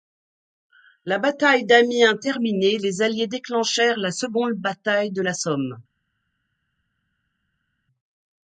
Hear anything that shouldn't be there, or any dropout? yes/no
no